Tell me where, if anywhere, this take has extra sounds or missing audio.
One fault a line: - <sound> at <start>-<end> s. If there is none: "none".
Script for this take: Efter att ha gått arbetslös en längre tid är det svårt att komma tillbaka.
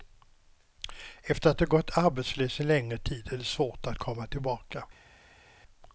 none